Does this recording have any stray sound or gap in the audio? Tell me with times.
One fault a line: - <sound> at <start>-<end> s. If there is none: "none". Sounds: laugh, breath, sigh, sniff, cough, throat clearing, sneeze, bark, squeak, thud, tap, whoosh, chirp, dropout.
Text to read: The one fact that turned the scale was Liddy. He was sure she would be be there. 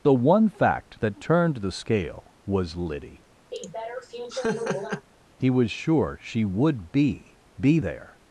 - laugh at 3.5-5.1 s